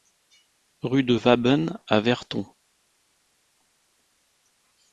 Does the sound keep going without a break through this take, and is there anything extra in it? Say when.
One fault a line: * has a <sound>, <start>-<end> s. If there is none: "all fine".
all fine